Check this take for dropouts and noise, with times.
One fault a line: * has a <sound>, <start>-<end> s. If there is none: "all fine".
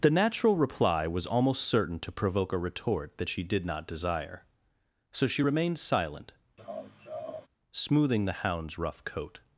* has a laugh, 6.6-7.5 s